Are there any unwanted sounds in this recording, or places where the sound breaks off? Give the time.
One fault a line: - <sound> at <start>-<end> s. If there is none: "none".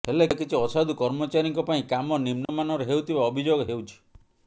- dropout at 2.4-2.5 s